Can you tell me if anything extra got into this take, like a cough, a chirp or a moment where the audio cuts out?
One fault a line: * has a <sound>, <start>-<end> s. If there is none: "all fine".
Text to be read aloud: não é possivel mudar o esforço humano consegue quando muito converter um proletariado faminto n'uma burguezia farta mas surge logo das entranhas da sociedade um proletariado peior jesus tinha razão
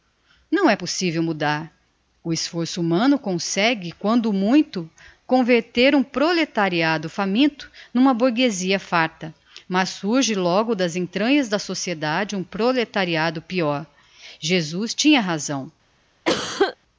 * has a cough, 16.2-16.8 s